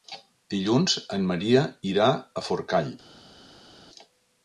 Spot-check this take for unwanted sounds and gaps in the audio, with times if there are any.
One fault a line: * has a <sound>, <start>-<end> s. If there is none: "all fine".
all fine